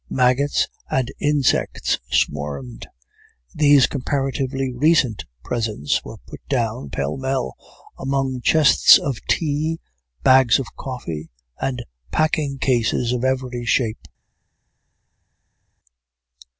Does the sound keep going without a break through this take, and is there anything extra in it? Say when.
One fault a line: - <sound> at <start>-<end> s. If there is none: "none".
none